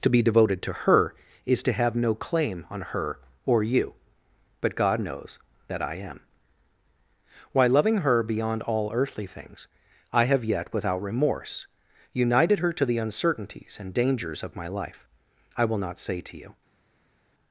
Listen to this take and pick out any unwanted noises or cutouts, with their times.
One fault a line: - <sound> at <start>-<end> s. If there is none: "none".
none